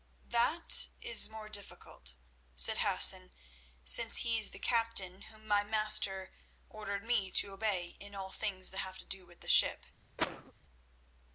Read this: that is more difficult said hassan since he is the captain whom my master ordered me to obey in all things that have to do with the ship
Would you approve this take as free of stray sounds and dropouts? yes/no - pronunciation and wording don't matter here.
no